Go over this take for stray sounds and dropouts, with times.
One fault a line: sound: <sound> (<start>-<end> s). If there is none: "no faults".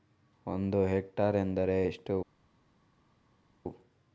no faults